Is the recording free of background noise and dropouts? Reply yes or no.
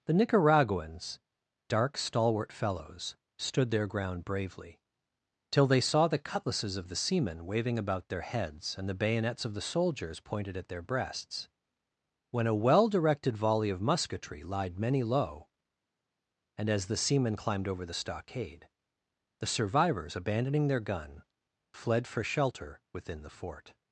yes